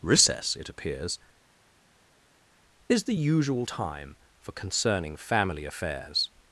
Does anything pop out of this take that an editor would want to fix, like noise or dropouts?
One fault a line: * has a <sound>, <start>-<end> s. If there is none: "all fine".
all fine